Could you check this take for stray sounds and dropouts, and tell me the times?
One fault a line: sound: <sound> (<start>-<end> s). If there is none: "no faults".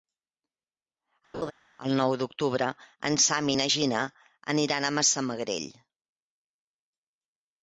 sound: laugh (1.3-1.5 s)